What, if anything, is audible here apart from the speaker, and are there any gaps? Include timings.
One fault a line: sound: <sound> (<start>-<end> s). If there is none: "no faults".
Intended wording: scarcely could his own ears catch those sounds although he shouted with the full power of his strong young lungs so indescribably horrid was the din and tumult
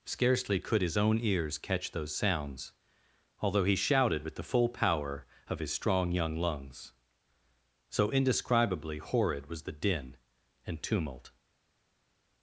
no faults